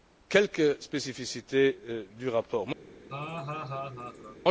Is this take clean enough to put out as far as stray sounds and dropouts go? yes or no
no